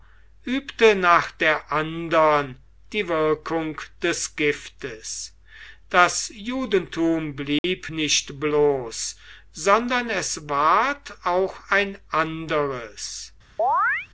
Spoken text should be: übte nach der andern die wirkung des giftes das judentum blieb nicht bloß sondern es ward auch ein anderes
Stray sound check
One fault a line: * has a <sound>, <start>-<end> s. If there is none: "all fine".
* has a dropout, 7.6-7.6 s
* has a chirp, 13.6-14.1 s